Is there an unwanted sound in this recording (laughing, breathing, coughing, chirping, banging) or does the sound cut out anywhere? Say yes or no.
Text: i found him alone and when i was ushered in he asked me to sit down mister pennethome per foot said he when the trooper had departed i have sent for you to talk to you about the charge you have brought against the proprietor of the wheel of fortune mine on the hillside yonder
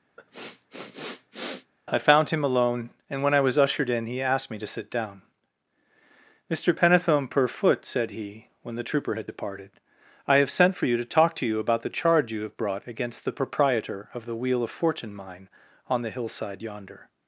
yes